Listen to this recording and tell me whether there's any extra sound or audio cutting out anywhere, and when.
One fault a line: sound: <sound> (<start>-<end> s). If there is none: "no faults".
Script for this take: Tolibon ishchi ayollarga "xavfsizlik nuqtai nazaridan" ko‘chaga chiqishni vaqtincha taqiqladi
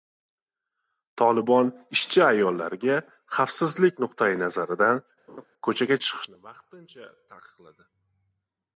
sound: laugh (5.3-5.5 s)